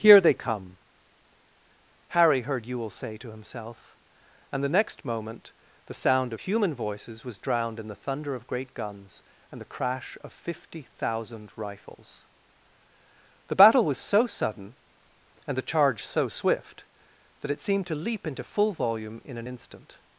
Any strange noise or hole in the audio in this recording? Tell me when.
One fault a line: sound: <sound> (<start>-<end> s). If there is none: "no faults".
no faults